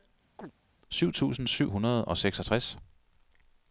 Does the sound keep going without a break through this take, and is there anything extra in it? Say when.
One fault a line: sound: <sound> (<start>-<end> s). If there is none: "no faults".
sound: chirp (0.4-0.5 s)